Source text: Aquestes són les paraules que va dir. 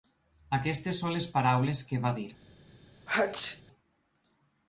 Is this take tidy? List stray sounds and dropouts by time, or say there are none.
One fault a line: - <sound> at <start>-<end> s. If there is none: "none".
- sneeze at 3.1-3.6 s